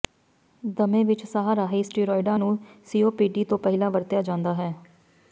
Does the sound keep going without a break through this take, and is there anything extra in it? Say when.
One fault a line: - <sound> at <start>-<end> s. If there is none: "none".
none